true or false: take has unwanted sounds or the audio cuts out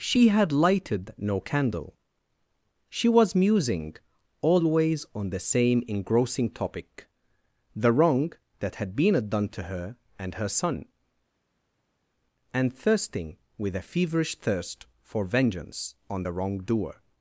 false